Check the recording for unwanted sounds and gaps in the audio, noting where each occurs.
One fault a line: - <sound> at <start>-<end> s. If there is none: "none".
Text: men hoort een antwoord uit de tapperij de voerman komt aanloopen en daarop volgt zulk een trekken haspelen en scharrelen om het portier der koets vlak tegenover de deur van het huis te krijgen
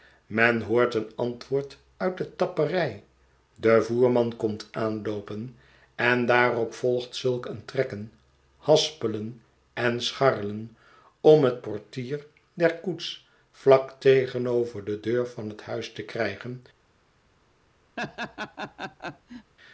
- laugh at 18.0-19.5 s